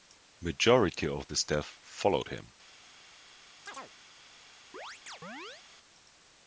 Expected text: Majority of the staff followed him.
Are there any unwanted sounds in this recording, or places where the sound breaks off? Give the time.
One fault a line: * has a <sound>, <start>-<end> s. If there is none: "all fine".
* has a chirp, 3.7-3.9 s
* has a chirp, 4.7-5.6 s